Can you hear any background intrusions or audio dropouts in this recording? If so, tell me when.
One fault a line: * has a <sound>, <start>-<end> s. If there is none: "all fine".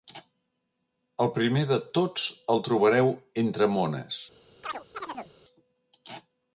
* has a chirp, 4.6-5.3 s